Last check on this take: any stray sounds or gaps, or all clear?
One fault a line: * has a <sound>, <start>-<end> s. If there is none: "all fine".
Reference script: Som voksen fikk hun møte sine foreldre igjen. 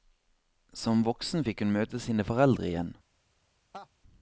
* has a laugh, 3.7-3.9 s